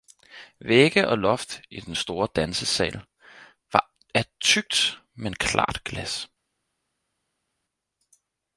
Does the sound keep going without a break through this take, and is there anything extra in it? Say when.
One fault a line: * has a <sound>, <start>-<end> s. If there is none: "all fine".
all fine